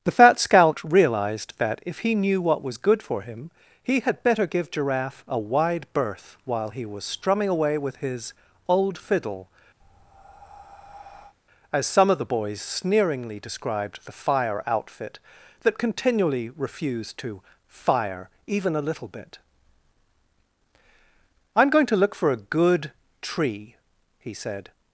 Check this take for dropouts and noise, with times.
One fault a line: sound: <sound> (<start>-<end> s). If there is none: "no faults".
sound: breath (9.8-11.3 s)